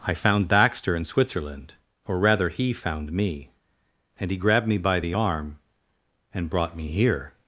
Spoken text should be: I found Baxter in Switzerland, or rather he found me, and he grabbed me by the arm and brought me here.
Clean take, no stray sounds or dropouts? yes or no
yes